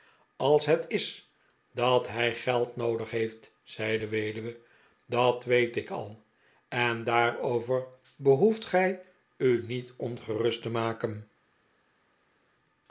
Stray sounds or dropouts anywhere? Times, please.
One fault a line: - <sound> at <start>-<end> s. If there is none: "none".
none